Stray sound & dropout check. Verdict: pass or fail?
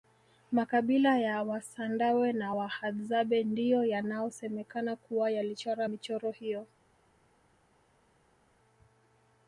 pass